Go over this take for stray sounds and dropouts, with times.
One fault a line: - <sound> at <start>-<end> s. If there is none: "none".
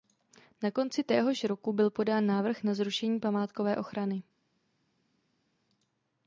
none